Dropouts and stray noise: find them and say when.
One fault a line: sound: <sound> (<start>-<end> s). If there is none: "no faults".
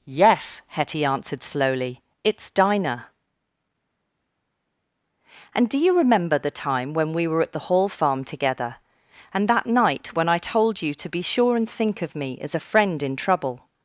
no faults